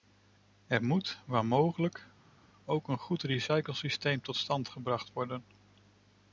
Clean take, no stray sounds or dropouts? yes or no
yes